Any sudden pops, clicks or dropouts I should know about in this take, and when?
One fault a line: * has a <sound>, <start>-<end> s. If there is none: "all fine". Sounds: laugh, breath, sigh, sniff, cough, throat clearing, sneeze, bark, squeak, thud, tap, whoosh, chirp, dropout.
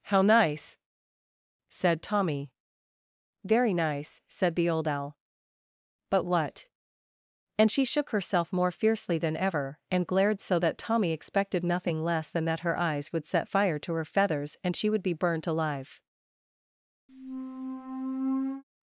* has a squeak, 17.1-18.6 s